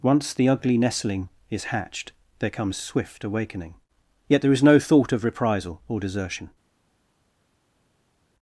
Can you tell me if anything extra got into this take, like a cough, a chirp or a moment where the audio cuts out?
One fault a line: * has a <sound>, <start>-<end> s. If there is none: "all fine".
all fine